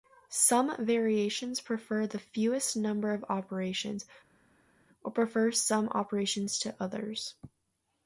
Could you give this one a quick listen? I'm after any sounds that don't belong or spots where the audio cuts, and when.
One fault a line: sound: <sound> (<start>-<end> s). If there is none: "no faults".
no faults